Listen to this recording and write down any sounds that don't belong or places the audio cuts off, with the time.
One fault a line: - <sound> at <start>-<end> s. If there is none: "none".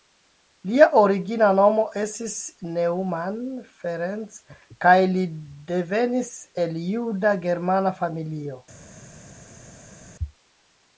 none